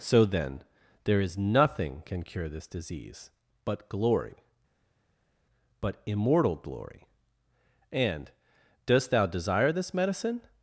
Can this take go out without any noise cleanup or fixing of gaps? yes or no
yes